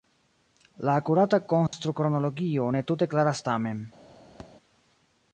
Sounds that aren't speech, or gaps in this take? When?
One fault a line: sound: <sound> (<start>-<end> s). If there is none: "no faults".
sound: dropout (1.7-1.7 s)
sound: thud (4.4-4.5 s)